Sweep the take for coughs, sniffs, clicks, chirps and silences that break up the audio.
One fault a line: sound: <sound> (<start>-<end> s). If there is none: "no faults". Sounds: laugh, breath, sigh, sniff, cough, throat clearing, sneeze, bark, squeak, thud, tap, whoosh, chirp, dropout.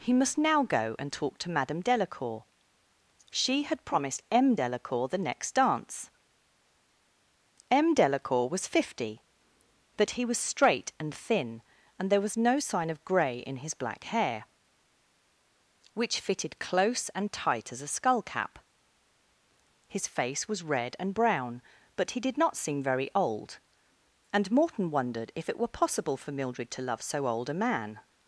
no faults